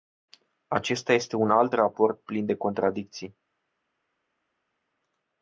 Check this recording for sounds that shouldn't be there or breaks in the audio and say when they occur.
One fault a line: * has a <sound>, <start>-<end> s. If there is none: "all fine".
all fine